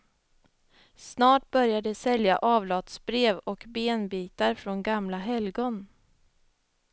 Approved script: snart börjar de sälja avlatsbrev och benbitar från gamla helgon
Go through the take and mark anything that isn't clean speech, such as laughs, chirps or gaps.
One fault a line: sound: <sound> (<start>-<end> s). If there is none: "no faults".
no faults